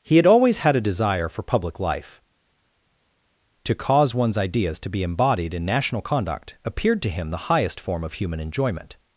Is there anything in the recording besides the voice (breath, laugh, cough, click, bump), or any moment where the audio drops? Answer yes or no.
no